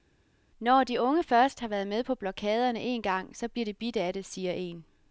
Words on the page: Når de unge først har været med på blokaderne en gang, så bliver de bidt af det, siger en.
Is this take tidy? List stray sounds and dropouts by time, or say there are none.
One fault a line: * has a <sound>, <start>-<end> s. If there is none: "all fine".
all fine